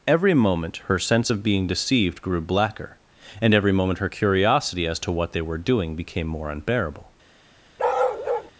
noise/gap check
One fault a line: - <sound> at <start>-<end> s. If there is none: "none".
- bark at 7.8-8.5 s